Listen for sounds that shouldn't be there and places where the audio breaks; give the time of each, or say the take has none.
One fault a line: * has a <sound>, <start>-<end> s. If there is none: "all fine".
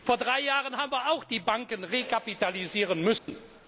* has a dropout, 3.2-3.3 s